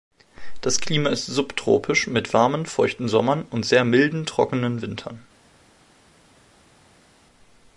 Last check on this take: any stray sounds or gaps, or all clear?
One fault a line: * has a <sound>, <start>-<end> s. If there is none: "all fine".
all fine